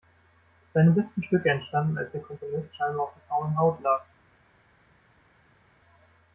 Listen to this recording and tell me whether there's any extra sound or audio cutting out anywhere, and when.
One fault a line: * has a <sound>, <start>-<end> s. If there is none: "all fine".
all fine